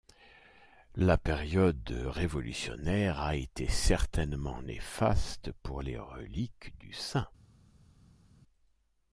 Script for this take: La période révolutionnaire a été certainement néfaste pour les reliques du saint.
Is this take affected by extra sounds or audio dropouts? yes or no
no